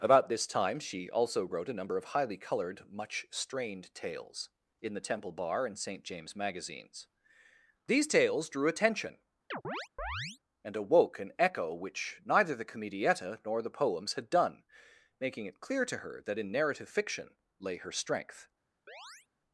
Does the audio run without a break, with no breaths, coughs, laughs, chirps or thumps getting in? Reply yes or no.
no